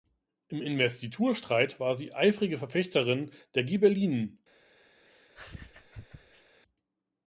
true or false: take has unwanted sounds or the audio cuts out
true